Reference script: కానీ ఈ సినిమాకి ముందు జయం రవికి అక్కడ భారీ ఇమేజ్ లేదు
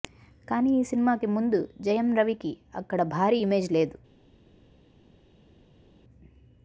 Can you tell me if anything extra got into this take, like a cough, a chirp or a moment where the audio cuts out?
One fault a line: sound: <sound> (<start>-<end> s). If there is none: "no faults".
no faults